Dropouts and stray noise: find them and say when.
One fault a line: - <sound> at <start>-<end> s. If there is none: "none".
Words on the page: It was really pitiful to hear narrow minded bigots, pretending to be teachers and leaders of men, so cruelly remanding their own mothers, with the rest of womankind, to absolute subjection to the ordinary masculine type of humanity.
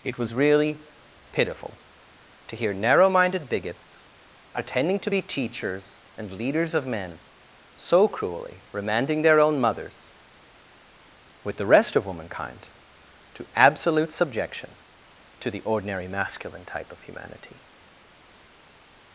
none